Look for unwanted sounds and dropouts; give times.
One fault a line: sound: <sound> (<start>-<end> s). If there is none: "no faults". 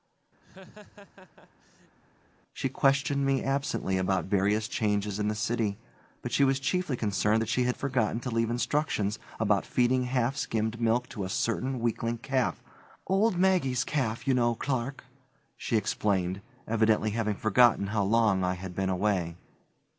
sound: laugh (0.4-2.0 s)